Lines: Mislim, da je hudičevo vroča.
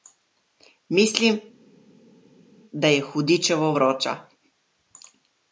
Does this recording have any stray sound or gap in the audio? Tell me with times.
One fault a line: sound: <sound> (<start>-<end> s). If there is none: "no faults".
no faults